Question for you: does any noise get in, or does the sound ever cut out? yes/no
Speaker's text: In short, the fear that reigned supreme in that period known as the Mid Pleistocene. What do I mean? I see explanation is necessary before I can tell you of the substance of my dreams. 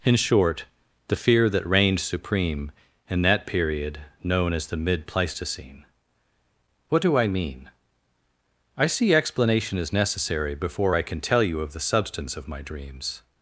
no